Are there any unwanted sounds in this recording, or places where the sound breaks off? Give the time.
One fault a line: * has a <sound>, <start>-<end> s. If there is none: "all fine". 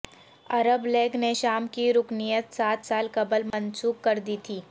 * has a dropout, 3.5-3.5 s